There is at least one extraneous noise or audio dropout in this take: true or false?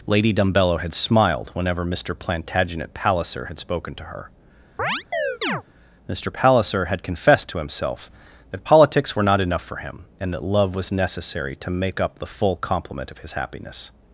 true